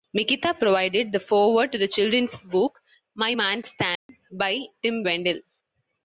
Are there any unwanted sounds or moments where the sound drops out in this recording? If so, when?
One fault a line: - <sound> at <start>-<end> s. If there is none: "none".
- dropout at 4.0-4.1 s